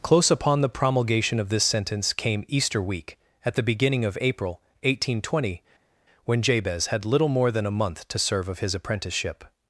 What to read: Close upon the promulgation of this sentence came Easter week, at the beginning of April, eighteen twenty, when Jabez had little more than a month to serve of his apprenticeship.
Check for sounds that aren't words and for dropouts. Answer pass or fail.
pass